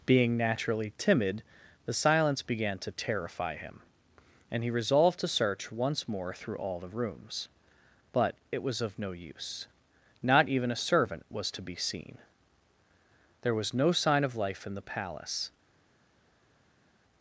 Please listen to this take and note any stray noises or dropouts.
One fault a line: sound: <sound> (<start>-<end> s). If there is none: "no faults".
no faults